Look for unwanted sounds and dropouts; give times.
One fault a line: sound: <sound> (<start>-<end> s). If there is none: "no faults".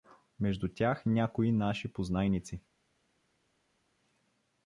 no faults